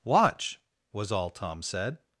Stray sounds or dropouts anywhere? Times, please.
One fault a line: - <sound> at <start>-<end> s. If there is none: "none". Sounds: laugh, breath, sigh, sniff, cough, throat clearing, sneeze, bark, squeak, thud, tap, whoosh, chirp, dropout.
none